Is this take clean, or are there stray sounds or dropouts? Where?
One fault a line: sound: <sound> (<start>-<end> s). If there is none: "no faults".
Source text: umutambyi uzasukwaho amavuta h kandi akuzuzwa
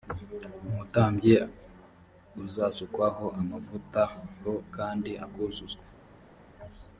no faults